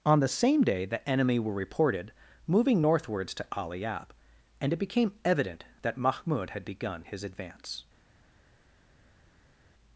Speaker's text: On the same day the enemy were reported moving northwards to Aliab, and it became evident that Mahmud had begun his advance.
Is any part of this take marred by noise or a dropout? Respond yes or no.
no